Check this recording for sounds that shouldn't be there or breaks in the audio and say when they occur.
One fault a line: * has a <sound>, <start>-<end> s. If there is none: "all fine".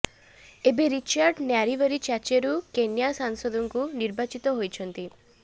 all fine